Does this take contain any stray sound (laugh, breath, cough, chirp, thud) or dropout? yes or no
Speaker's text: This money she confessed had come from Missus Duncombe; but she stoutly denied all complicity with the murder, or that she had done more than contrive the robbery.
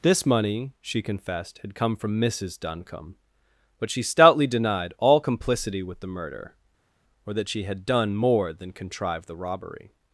no